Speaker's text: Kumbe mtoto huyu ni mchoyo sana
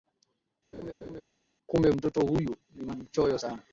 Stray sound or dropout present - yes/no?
yes